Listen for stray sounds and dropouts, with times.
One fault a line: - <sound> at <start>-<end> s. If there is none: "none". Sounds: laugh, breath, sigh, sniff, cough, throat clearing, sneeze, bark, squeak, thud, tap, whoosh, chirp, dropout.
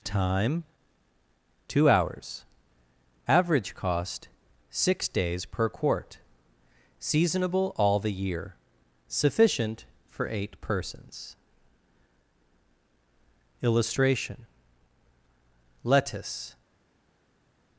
none